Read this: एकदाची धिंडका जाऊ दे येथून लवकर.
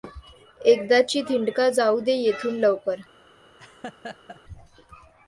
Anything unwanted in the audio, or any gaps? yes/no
yes